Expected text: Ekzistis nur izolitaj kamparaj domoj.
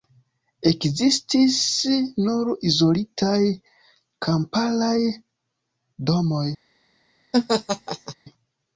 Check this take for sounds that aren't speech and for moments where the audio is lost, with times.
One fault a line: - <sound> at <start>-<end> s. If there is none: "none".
- laugh at 7.3-8.1 s